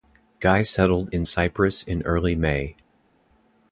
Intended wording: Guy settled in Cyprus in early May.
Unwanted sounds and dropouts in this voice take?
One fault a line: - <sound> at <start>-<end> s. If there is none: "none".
none